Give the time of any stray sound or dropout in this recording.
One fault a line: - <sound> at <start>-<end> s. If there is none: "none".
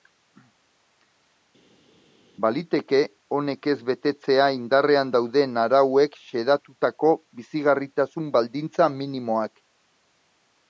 none